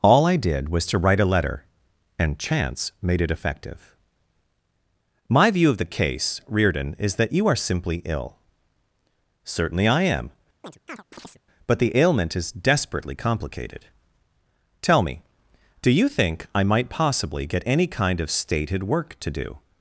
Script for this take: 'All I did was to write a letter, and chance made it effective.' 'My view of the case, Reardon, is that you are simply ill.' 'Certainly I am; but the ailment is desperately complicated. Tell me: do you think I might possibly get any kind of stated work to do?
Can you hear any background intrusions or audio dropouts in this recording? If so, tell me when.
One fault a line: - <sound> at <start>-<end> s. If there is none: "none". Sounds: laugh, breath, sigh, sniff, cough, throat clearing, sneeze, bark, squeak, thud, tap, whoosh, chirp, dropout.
- chirp at 10.6-11.4 s